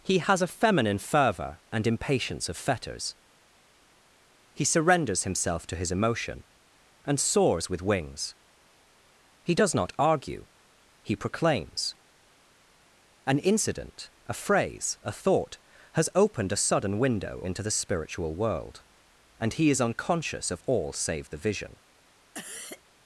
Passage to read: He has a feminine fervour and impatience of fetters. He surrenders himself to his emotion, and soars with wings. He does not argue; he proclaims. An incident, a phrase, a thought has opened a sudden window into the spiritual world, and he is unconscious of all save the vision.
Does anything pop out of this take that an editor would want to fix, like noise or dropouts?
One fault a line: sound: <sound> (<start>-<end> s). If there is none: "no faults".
sound: cough (22.3-22.8 s)